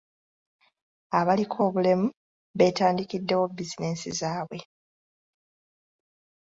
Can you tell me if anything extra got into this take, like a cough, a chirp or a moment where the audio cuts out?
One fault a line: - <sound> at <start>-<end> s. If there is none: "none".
none